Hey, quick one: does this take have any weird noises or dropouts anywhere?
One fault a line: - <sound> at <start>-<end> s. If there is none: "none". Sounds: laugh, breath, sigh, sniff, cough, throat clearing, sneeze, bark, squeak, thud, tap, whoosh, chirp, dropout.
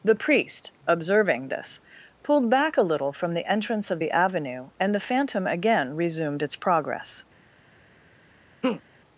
- laugh at 8.6-8.8 s